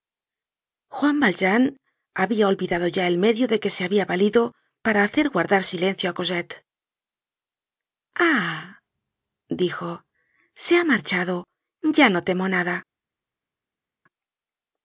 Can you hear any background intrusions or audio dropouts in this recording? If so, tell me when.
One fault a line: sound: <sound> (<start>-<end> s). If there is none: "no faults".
no faults